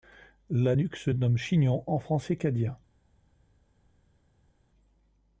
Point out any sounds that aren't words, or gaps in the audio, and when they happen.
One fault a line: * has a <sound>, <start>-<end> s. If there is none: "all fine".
all fine